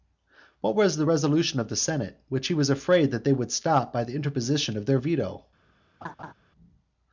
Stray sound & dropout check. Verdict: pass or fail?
fail